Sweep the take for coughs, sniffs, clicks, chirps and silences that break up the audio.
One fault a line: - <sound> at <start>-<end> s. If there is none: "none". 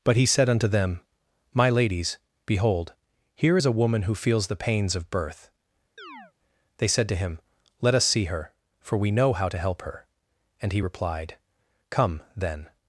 - chirp at 6.0-6.3 s